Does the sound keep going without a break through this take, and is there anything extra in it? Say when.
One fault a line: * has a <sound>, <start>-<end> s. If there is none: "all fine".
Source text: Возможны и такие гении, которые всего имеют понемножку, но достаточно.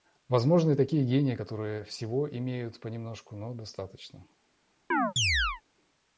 * has a chirp, 4.9-5.6 s